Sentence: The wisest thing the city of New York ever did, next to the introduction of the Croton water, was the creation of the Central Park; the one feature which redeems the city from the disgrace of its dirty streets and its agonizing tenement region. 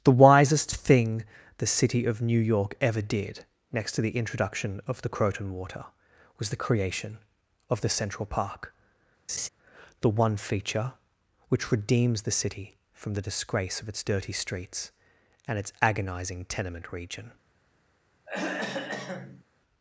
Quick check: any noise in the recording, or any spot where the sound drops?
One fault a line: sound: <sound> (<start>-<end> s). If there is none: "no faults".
sound: laugh (9.3-9.5 s)
sound: throat clearing (18.3-19.4 s)